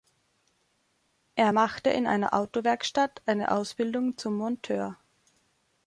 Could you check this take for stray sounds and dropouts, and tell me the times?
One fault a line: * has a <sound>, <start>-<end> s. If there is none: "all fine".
all fine